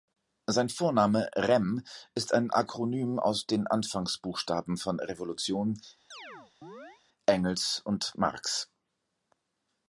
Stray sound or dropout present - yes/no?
yes